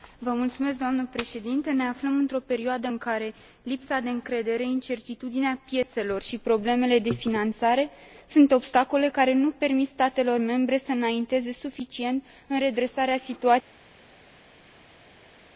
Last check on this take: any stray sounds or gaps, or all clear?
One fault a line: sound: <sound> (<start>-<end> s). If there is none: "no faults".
no faults